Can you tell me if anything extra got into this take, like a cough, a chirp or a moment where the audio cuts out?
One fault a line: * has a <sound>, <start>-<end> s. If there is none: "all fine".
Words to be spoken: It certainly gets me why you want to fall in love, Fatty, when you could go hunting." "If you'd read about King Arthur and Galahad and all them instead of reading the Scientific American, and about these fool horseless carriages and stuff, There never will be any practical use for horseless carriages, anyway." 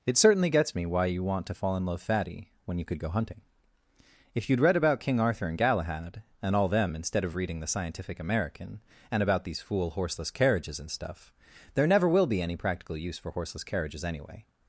all fine